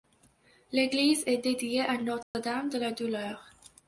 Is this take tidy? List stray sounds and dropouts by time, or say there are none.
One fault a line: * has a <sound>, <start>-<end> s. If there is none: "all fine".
* has a dropout, 2.2-2.3 s